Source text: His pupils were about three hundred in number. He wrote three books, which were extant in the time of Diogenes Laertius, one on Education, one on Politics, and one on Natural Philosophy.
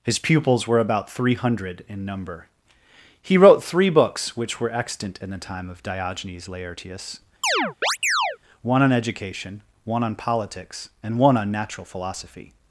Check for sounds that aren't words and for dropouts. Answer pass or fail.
fail